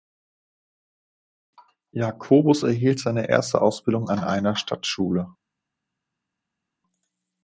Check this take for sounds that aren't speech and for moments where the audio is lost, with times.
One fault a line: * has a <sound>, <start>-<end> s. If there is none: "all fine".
all fine